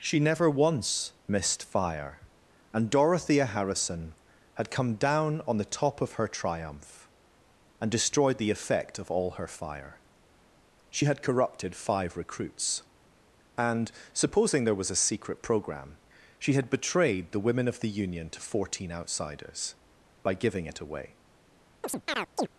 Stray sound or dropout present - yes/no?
yes